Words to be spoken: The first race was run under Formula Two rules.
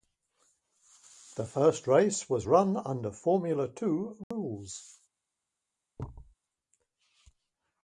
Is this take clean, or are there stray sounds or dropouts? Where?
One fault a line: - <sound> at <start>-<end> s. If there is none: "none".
- dropout at 4.2-4.3 s
- thud at 6.0-6.4 s